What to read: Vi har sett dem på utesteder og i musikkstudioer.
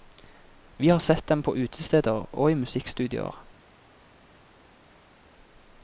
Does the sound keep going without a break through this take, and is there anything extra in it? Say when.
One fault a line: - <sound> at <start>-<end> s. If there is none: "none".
none